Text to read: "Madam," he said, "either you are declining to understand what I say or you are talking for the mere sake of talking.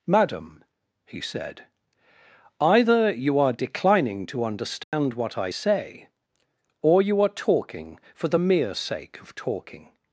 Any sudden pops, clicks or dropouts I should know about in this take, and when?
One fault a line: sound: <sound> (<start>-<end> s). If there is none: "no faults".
sound: dropout (4.8-4.9 s)